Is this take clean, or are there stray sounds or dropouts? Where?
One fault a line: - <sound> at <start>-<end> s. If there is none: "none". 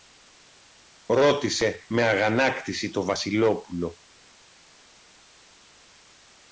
none